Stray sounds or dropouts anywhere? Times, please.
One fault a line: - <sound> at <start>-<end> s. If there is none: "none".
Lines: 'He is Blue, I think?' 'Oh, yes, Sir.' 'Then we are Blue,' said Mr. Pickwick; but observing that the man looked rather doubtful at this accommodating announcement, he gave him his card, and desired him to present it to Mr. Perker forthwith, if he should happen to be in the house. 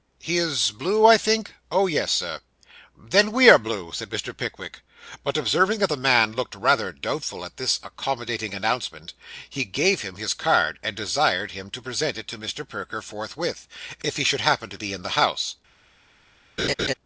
- laugh at 16.6-16.9 s